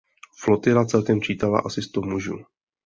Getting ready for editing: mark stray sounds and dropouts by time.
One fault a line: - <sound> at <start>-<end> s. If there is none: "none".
none